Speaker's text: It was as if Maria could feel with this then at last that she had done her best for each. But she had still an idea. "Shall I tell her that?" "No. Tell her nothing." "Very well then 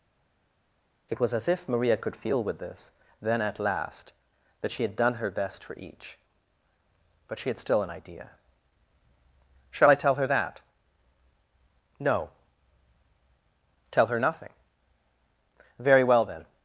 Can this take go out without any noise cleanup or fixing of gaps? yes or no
yes